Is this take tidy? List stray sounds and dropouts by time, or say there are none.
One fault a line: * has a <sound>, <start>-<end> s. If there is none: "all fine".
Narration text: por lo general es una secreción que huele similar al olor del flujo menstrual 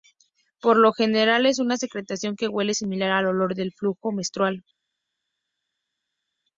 all fine